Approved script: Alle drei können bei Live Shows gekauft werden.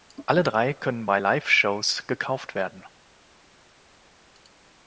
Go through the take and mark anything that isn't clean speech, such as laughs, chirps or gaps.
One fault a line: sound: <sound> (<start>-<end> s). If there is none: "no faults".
no faults